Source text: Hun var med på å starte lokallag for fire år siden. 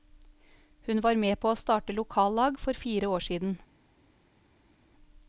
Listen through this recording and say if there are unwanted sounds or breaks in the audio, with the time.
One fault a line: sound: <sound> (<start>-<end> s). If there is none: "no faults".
no faults